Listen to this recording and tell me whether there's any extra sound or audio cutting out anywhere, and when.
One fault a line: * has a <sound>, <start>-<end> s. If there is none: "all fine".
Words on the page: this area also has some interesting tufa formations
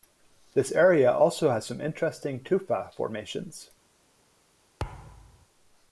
* has a thud, 4.8-5.5 s